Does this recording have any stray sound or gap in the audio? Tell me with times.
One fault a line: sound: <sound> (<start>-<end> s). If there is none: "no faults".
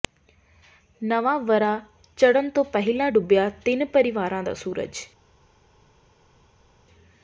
no faults